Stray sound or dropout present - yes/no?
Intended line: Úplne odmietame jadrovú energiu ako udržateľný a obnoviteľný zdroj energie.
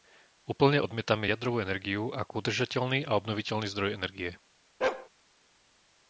yes